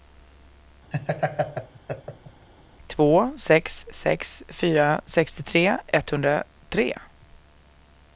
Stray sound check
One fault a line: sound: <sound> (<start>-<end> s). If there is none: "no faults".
sound: laugh (0.9-2.5 s)